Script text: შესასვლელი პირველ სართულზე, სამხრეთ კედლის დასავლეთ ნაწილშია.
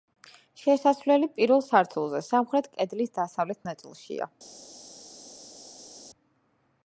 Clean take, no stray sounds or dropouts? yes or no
yes